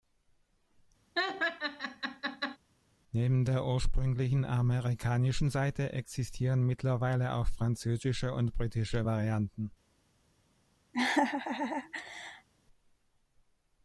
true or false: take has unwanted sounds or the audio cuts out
true